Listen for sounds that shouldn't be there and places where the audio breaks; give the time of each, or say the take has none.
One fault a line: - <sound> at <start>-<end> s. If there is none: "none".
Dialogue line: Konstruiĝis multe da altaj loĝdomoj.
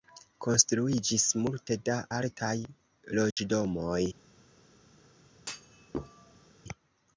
- dropout at 3.3-3.4 s
- thud at 5.4-6.6 s